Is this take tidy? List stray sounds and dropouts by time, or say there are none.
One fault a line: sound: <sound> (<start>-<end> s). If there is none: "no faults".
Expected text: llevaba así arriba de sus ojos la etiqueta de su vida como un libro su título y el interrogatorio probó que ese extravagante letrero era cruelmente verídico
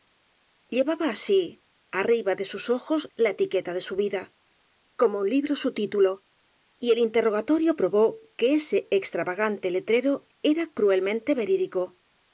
no faults